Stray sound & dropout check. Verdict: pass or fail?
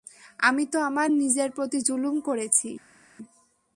pass